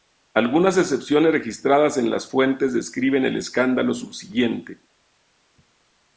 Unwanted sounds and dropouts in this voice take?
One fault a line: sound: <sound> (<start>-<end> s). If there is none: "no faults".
no faults